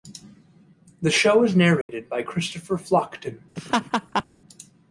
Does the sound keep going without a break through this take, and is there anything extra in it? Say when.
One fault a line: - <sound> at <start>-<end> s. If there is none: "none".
- dropout at 1.8-1.9 s
- laugh at 3.6-4.2 s